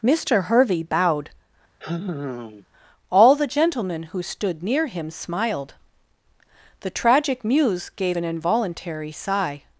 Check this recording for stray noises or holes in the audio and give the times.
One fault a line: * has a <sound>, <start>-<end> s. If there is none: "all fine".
* has a sigh, 1.8-2.7 s